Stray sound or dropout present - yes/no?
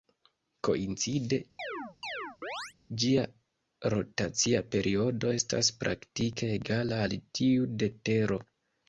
yes